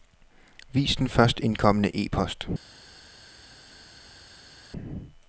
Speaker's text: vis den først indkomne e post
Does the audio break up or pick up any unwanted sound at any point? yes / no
no